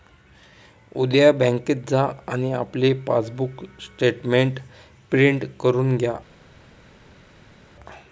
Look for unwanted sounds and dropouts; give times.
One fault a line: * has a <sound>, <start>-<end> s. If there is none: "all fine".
all fine